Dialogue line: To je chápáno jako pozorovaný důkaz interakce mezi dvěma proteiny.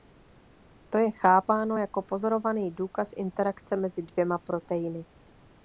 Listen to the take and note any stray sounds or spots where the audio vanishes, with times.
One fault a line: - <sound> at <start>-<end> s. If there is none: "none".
none